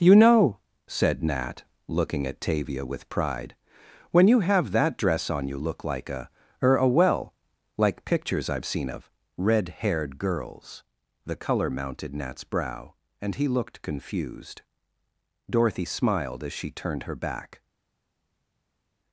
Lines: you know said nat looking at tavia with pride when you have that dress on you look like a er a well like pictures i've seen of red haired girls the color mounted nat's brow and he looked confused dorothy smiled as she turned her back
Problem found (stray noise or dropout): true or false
false